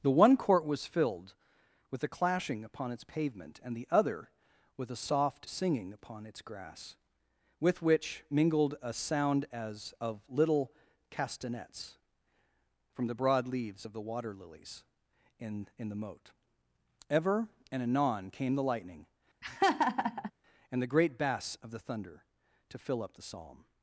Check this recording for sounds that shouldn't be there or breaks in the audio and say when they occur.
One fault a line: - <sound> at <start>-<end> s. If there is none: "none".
- laugh at 19.4-20.3 s